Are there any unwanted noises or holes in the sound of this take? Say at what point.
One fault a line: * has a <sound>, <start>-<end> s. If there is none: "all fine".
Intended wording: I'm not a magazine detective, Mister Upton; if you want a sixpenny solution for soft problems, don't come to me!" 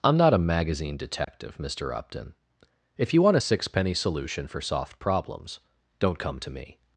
* has a dropout, 1.2-1.3 s